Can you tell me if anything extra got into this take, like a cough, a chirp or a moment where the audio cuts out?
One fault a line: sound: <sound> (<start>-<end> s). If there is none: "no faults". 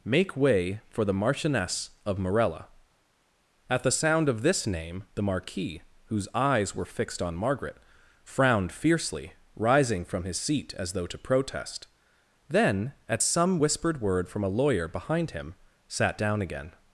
no faults